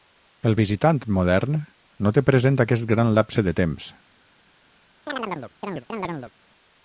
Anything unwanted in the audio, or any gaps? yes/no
yes